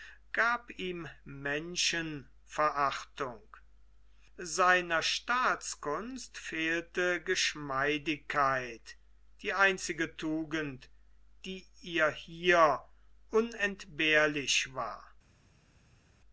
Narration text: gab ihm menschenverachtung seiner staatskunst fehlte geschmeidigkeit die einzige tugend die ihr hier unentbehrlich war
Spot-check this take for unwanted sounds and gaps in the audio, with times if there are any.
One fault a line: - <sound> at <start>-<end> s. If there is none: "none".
none